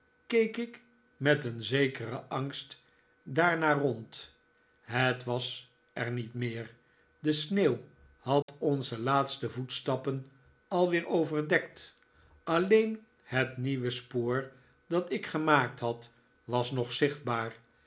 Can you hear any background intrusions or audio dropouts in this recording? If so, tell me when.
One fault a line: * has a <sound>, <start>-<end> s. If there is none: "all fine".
* has a dropout, 8.4-8.5 s